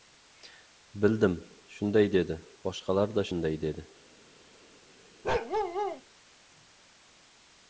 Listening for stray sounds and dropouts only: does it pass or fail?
fail